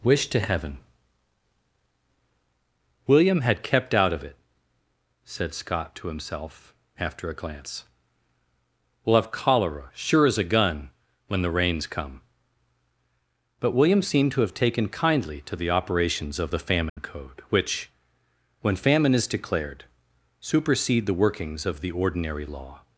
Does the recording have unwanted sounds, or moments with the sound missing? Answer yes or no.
yes